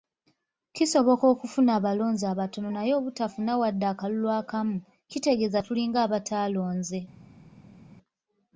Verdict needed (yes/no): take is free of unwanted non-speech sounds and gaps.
yes